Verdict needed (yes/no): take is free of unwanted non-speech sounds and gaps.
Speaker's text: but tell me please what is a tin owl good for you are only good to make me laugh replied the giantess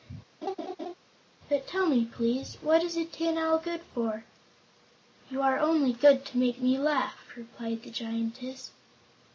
no